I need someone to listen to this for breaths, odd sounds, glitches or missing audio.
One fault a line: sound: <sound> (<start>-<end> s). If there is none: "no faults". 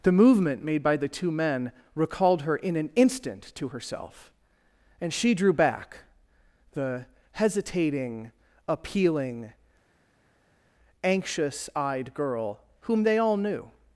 no faults